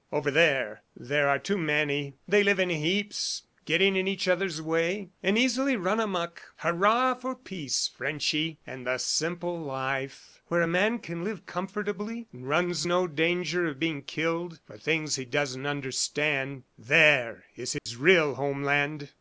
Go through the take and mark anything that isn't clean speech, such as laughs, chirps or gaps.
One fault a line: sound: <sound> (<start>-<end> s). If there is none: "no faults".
sound: dropout (17.8-17.9 s)